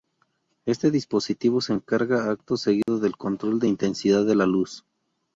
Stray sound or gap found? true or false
true